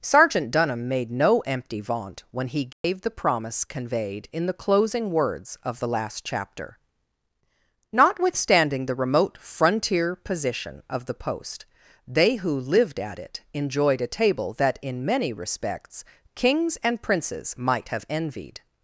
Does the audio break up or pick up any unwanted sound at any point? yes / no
yes